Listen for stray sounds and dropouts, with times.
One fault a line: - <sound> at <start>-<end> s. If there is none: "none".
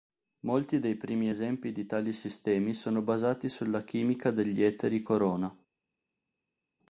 none